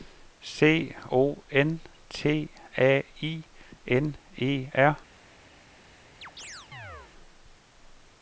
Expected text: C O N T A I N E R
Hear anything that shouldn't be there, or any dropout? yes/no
yes